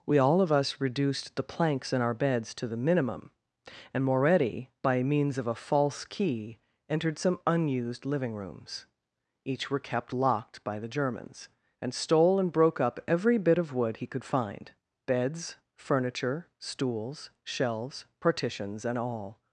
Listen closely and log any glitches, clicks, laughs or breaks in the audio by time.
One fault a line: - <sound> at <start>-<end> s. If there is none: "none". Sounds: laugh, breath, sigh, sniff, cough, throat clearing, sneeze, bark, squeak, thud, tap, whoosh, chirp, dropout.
none